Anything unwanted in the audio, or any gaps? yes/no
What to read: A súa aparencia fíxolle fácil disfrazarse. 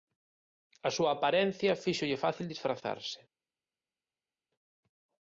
no